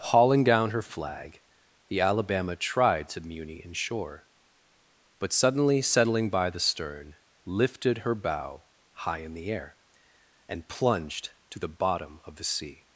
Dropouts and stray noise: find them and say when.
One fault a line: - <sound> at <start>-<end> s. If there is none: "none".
none